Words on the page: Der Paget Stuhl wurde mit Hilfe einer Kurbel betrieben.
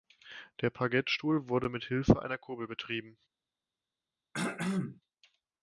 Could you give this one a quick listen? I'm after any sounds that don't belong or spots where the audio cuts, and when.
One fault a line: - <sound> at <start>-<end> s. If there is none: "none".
- throat clearing at 4.3-5.0 s